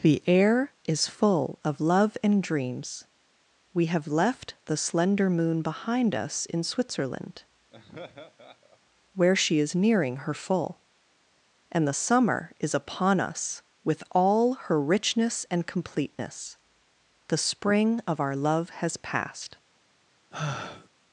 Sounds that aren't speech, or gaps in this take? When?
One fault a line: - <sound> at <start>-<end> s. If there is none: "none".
- laugh at 7.7-8.8 s
- sigh at 20.3-20.9 s